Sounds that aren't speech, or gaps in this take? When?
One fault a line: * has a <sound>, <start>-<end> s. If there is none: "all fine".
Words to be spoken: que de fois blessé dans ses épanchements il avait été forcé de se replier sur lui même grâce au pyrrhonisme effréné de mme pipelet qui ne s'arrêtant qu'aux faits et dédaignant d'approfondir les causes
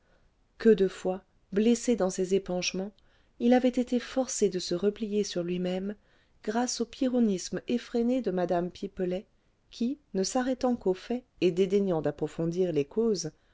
all fine